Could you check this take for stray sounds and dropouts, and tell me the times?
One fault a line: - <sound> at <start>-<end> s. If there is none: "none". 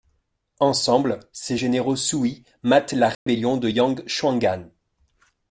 - dropout at 3.1-3.3 s